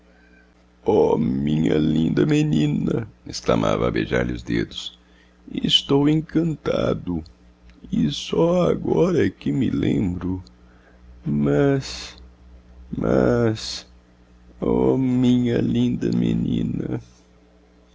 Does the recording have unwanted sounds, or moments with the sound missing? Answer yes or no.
no